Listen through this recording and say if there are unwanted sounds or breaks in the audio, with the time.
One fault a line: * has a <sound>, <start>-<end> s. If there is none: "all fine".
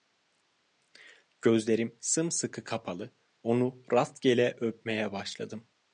all fine